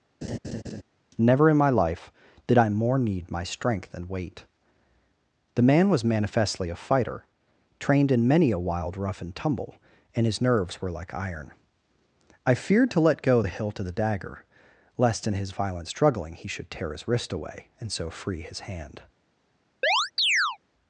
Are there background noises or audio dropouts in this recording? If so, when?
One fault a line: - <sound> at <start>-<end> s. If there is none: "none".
- laugh at 0.2-0.8 s
- chirp at 19.8-20.6 s